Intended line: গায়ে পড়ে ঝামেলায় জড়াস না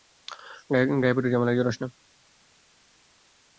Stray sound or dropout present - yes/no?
no